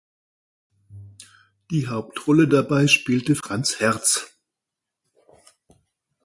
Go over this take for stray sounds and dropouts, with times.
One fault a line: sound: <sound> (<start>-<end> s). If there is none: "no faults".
no faults